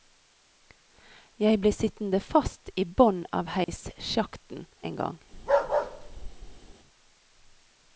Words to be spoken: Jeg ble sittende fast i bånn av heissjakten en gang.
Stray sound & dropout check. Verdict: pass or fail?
fail